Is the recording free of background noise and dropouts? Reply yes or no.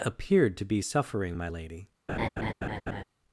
no